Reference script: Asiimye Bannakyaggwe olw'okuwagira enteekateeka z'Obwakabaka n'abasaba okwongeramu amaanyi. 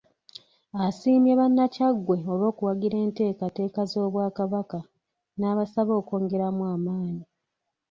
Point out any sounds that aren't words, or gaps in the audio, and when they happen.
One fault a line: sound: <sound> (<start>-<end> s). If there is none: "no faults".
no faults